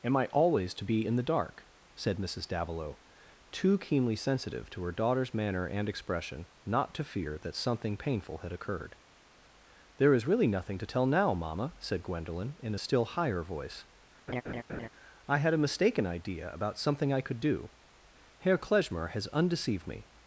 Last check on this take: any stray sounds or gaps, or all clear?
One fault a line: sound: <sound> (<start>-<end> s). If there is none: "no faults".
sound: laugh (14.3-14.9 s)